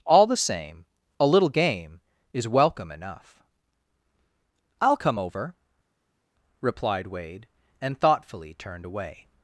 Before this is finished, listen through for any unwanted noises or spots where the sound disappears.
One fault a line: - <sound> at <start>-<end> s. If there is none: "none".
none